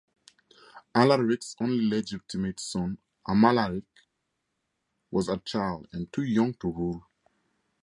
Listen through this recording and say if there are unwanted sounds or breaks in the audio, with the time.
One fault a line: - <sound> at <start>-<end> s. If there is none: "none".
none